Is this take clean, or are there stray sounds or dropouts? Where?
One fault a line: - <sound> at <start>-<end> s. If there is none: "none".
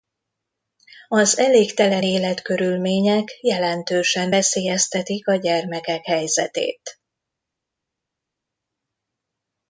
none